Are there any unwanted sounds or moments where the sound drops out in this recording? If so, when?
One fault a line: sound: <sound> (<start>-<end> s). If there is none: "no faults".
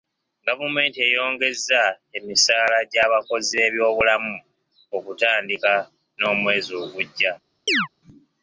sound: chirp (7.7-7.9 s)